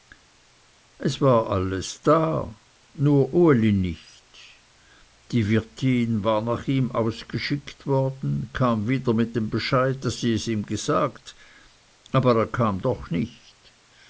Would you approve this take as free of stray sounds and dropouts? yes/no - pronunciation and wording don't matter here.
yes